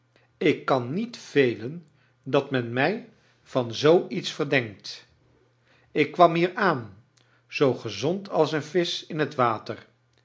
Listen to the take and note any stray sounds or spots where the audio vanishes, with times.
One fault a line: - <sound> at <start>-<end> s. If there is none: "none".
none